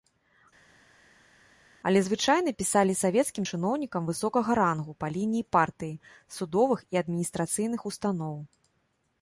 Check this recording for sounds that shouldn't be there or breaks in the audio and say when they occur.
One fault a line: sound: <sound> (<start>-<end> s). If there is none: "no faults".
no faults